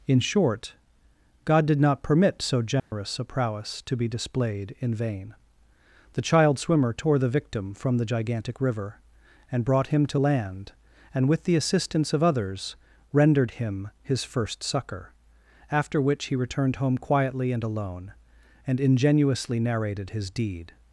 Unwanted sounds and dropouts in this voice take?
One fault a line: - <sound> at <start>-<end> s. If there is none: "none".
- dropout at 2.8-2.9 s